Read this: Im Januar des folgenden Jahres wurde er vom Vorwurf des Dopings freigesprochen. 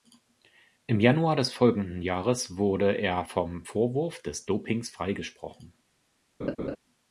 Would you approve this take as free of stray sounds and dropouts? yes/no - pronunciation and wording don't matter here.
no